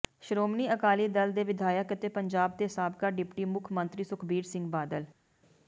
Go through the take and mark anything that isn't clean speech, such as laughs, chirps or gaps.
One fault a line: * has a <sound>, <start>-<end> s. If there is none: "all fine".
all fine